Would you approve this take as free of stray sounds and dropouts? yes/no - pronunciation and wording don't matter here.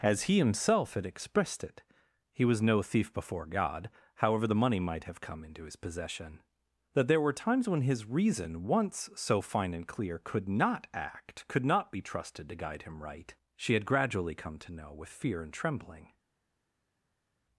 yes